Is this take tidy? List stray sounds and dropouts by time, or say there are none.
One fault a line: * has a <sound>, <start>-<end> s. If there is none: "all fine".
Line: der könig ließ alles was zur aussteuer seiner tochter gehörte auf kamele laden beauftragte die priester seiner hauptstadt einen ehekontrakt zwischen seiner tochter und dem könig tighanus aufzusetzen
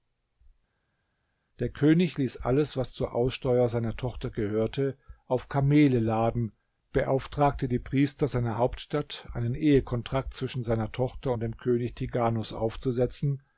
all fine